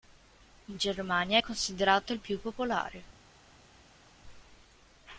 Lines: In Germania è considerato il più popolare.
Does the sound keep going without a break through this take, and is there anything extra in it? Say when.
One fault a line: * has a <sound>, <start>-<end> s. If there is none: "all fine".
all fine